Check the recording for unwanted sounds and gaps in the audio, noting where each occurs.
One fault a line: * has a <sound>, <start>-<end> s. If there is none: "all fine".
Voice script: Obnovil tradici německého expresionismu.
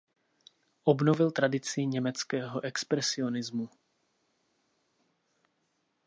all fine